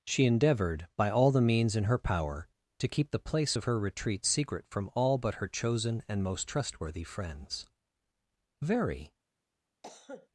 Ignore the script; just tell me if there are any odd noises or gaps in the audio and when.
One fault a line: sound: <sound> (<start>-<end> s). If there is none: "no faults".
sound: cough (9.8-10.3 s)